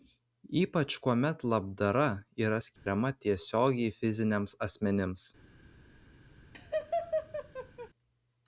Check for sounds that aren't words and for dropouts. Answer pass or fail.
fail